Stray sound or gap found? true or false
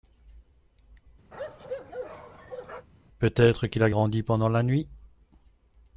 true